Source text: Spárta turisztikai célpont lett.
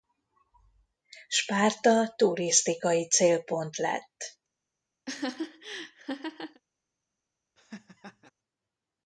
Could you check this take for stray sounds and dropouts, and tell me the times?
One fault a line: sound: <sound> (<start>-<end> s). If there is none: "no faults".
sound: laugh (5.1-6.6 s)
sound: laugh (7.6-8.3 s)